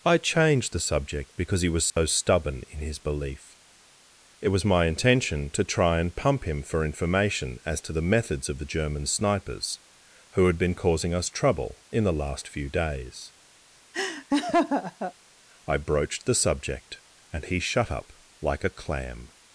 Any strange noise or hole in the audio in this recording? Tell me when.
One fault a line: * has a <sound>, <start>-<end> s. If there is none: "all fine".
* has a dropout, 1.9-2.0 s
* has a laugh, 13.9-15.1 s